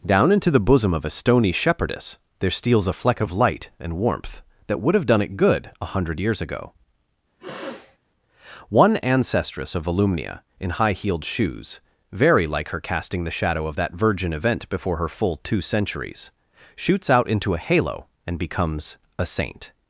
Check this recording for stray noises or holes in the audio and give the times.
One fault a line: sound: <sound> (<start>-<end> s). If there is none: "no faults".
sound: sniff (7.4-8.0 s)